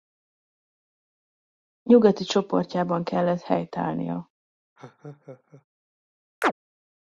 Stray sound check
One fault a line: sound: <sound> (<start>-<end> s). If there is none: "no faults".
sound: laugh (4.8-5.6 s)
sound: chirp (6.4-6.5 s)